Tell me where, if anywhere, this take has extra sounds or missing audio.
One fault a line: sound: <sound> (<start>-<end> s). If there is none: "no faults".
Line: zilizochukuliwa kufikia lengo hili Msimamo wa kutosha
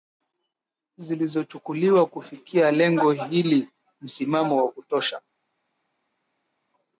no faults